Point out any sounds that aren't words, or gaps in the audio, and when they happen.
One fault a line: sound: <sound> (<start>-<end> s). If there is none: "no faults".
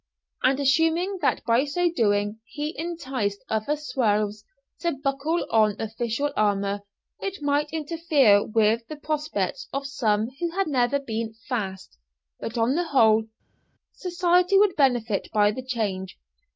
no faults